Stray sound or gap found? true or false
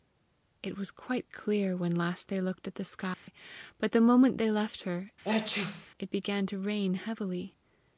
true